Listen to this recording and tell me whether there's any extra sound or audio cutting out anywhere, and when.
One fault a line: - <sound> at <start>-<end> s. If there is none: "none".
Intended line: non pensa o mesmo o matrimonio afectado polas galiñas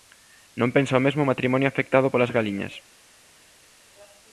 none